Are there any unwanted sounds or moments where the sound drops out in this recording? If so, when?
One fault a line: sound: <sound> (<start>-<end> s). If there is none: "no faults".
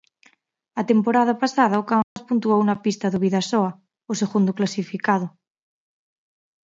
sound: dropout (2.0-2.2 s)